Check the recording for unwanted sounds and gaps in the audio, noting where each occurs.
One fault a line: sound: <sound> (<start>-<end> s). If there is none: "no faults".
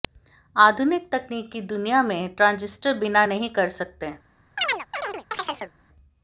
sound: chirp (4.6-5.7 s)